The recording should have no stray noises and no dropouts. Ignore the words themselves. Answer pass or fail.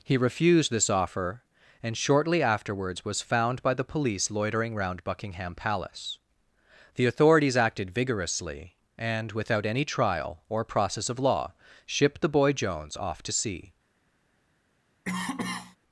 fail